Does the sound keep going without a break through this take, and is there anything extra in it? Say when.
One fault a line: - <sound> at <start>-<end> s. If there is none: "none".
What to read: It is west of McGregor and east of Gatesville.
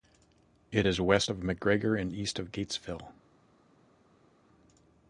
none